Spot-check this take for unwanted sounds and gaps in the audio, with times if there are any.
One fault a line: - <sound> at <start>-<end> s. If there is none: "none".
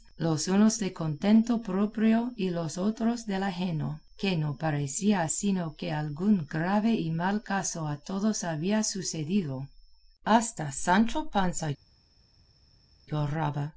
none